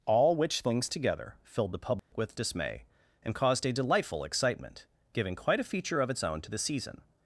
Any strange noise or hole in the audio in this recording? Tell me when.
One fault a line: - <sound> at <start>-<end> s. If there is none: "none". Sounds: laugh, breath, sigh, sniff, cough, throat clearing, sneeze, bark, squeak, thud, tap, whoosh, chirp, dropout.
- dropout at 2.0-2.1 s